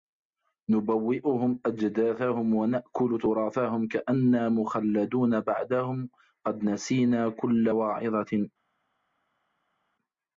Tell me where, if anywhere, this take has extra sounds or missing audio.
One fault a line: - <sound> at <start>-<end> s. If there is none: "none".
none